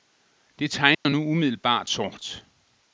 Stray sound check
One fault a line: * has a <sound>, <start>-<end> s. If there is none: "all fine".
* has a dropout, 0.9-1.1 s